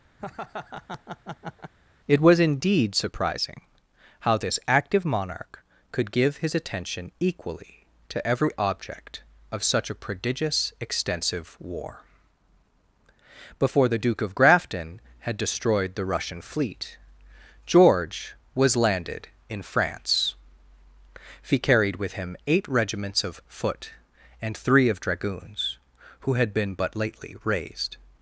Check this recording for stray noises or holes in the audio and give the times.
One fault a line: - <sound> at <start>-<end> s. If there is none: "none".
- laugh at 0.2-1.7 s